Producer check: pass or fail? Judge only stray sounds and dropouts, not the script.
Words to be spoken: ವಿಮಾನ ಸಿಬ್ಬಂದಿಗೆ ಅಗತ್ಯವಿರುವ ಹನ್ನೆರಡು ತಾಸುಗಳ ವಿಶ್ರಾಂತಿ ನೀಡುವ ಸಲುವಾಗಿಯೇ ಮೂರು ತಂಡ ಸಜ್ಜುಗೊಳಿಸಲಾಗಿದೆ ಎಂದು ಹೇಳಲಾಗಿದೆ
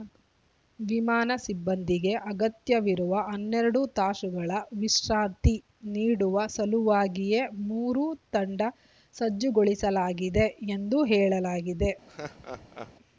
fail